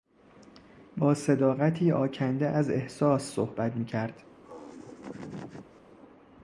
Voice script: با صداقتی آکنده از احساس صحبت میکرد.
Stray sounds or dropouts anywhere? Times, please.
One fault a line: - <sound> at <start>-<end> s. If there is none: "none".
- laugh at 4.4-5.8 s